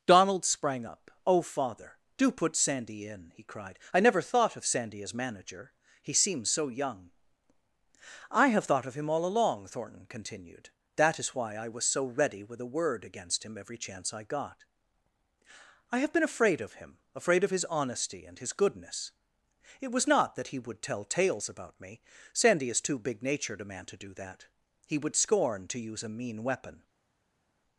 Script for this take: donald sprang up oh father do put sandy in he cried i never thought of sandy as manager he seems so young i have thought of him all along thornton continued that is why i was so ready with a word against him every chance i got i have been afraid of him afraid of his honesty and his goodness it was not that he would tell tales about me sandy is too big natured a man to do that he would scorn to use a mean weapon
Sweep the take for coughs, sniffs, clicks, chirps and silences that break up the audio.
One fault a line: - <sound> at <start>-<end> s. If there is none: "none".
none